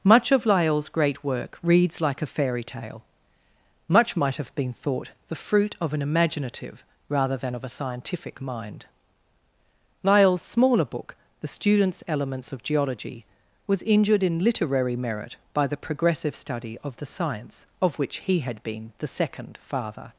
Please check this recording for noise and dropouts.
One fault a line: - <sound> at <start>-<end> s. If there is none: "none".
none